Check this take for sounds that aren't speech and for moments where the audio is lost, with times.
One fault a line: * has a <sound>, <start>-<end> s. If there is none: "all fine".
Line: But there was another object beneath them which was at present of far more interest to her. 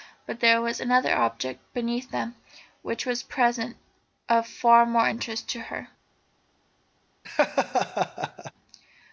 * has a laugh, 7.2-8.5 s